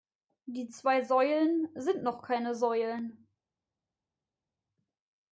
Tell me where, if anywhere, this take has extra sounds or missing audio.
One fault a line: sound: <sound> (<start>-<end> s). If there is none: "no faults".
no faults